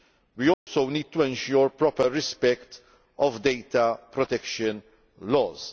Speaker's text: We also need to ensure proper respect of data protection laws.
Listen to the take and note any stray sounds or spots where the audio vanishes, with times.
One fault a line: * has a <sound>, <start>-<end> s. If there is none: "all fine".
* has a dropout, 0.5-0.7 s